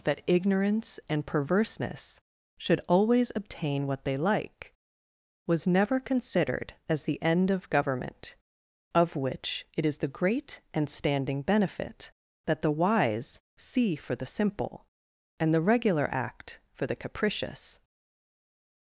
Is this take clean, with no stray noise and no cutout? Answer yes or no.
yes